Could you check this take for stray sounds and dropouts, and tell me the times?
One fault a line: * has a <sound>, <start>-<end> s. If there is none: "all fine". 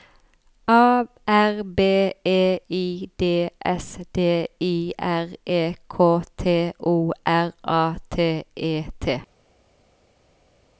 all fine